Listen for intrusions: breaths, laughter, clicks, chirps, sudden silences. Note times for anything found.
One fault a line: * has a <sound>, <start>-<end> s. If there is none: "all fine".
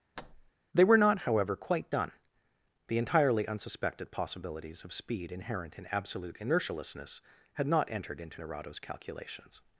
* has a thud, 0.2-0.5 s